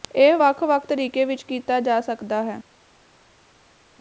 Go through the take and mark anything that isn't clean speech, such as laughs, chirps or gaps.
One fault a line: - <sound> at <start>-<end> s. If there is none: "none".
none